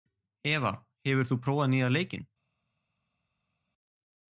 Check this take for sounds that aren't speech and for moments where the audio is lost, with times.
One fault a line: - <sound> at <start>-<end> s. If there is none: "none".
none